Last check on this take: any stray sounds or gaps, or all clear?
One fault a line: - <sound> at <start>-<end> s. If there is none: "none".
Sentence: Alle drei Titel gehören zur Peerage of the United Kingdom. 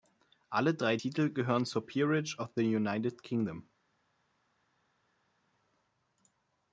none